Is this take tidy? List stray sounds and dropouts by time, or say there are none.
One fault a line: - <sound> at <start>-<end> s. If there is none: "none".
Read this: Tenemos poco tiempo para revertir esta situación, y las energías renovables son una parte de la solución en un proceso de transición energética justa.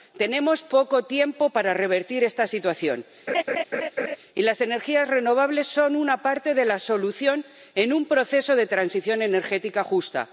- laugh at 3.3-4.2 s